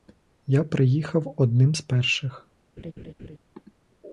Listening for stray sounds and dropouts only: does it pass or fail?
fail